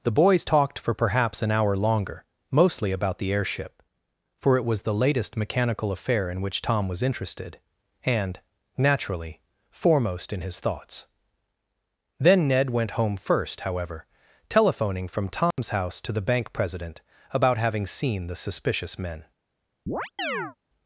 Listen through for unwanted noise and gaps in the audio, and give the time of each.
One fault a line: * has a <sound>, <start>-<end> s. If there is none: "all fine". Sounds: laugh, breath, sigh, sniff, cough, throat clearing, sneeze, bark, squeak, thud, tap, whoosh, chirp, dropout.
* has a dropout, 15.5-15.6 s
* has a chirp, 19.9-20.6 s